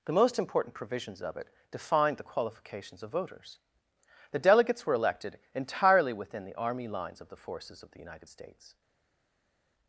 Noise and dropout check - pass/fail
pass